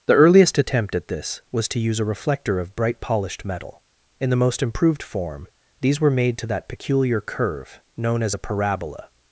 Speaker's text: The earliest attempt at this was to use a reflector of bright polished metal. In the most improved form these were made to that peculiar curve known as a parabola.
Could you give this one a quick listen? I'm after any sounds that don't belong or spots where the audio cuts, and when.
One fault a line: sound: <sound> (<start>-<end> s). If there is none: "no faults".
no faults